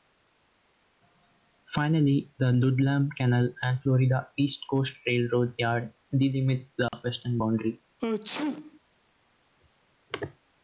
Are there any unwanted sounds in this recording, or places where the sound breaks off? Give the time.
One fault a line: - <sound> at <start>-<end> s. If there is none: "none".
- dropout at 6.9-6.9 s
- sneeze at 8.0-8.8 s